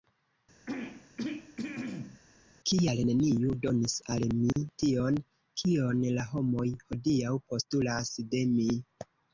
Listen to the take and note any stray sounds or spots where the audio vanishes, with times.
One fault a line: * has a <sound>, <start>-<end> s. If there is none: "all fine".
* has a throat clearing, 0.7-2.2 s
* has a dropout, 4.5-4.6 s